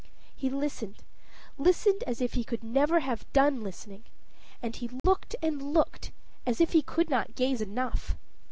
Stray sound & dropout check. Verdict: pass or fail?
fail